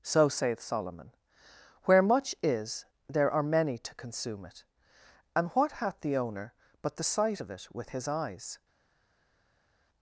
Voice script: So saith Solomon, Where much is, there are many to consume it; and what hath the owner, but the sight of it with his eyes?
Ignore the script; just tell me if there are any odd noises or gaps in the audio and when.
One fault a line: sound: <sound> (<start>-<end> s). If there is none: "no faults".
no faults